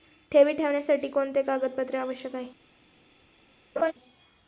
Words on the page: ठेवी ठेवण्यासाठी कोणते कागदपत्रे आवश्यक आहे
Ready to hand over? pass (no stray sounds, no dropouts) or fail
fail